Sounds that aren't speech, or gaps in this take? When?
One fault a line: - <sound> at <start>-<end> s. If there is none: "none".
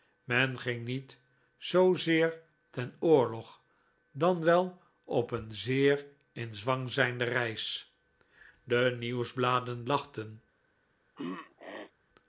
- throat clearing at 11.2-11.9 s